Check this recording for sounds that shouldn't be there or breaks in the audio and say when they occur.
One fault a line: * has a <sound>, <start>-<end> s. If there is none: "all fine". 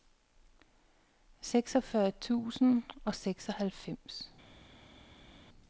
all fine